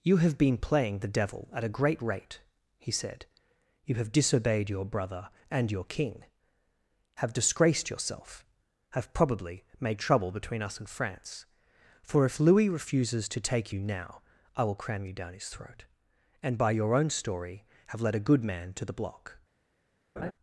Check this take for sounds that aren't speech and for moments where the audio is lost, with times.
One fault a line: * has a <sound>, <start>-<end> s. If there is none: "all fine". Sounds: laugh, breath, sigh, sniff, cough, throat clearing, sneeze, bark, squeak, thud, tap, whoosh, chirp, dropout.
* has a laugh, 20.2-20.3 s